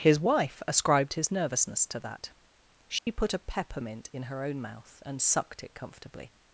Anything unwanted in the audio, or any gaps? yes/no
yes